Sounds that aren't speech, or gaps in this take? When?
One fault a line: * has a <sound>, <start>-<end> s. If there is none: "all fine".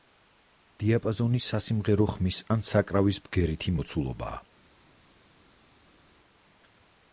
all fine